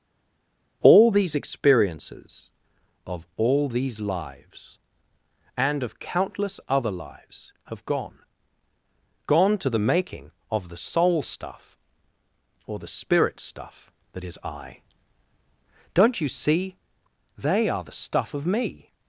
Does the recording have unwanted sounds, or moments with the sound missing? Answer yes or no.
no